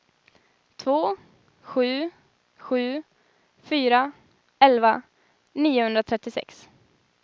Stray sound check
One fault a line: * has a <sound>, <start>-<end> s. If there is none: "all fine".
all fine